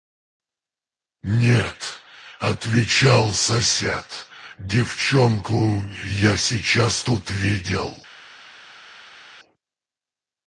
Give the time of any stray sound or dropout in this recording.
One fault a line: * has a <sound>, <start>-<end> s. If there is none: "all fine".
all fine